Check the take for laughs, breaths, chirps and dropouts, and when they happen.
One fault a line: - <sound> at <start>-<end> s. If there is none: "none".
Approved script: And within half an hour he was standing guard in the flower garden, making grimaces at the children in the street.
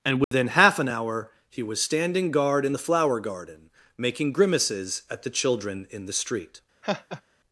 - dropout at 0.2-0.3 s
- laugh at 6.8-7.2 s